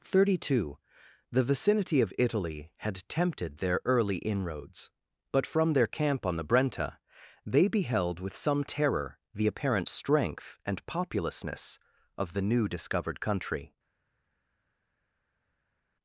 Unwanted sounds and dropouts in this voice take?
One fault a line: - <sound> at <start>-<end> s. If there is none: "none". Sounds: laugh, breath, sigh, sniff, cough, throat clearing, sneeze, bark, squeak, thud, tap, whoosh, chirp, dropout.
none